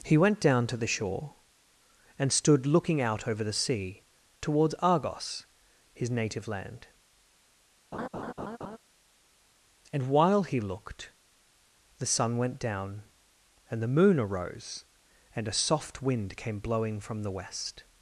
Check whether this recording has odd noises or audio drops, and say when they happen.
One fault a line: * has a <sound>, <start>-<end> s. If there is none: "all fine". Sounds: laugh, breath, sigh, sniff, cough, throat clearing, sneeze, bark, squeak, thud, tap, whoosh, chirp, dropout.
* has a laugh, 7.9-8.8 s